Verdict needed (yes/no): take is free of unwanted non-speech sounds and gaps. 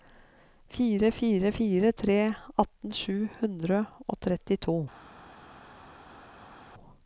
yes